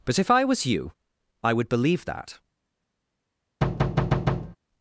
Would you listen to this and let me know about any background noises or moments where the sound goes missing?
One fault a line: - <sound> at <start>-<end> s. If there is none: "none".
- thud at 3.6-4.6 s